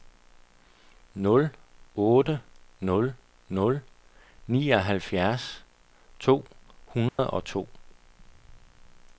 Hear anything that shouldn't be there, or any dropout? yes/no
yes